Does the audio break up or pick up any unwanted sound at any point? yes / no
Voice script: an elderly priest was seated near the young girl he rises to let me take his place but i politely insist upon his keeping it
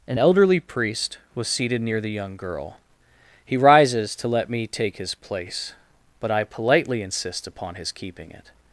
no